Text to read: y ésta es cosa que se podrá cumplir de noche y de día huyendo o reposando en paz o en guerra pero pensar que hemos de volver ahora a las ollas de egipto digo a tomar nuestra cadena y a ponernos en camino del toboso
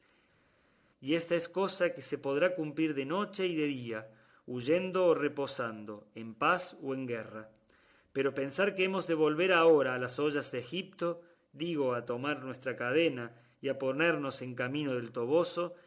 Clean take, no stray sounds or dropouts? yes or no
yes